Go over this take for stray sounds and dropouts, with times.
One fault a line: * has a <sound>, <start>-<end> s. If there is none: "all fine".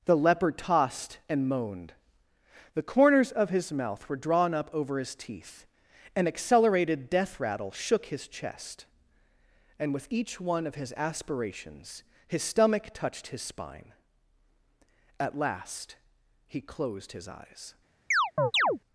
* has a chirp, 18.1-18.8 s